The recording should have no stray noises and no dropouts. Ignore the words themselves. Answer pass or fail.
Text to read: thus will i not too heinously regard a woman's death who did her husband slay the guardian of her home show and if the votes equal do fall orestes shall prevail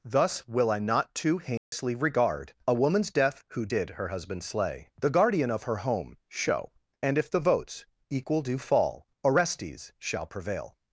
fail